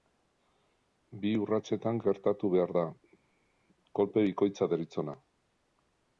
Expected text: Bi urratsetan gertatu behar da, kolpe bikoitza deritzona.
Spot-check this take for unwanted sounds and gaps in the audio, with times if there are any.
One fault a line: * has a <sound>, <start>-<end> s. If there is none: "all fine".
all fine